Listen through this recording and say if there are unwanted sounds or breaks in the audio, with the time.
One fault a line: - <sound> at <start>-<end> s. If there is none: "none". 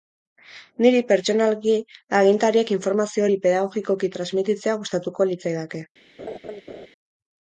- laugh at 6.2-6.9 s